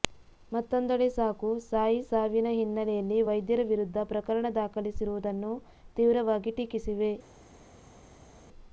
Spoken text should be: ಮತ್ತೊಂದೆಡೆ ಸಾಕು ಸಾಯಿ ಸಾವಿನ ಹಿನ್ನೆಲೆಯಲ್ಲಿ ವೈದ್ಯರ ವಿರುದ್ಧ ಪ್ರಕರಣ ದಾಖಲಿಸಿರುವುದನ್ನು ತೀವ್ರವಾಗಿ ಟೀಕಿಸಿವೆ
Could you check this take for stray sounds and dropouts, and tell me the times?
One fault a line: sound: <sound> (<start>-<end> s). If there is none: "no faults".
no faults